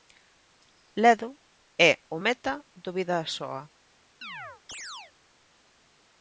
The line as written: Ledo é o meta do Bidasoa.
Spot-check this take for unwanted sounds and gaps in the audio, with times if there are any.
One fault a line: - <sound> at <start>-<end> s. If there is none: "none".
- chirp at 4.2-5.1 s